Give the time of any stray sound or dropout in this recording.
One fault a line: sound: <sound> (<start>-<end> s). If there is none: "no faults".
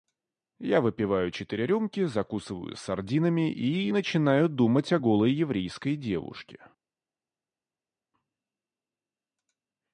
no faults